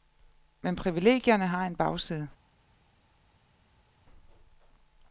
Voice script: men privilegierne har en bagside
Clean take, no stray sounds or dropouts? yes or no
yes